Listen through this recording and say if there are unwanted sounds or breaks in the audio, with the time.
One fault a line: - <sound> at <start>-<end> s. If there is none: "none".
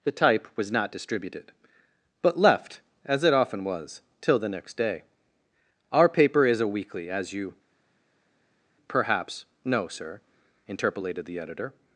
none